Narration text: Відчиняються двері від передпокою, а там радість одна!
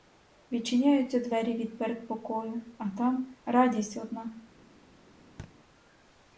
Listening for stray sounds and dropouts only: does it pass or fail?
fail